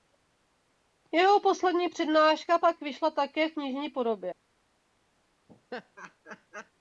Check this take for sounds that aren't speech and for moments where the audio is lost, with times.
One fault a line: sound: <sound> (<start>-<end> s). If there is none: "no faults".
sound: laugh (5.5-6.7 s)